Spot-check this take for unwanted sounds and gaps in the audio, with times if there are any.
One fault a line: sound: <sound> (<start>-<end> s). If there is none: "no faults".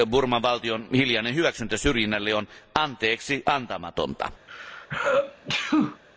sound: sneeze (4.5-6.0 s)